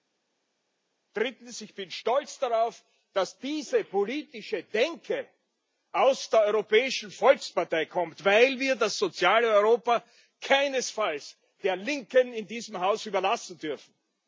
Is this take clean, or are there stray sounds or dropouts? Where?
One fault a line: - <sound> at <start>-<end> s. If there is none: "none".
none